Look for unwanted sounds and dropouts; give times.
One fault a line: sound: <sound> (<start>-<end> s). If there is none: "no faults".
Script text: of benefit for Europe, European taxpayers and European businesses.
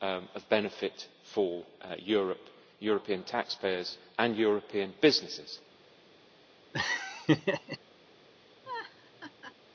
sound: laugh (6.7-7.8 s)
sound: laugh (8.6-9.5 s)